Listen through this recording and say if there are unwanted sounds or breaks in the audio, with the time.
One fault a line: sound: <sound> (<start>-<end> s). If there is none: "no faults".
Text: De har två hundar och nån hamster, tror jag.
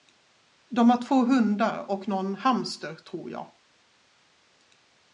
no faults